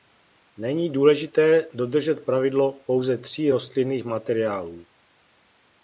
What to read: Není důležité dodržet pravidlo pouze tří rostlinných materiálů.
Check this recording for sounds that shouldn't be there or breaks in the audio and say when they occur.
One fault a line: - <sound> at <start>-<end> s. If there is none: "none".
none